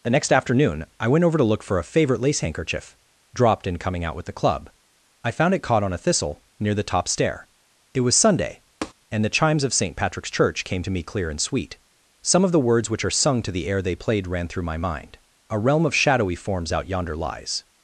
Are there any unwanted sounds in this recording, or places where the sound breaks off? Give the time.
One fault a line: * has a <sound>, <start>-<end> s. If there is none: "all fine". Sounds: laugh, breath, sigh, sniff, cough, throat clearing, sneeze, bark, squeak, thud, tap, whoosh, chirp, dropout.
* has a tap, 8.8-8.9 s